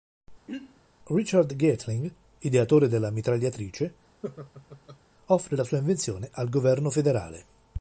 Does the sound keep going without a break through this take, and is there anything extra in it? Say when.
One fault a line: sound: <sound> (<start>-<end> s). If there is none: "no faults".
sound: throat clearing (0.5-0.8 s)
sound: laugh (4.2-5.0 s)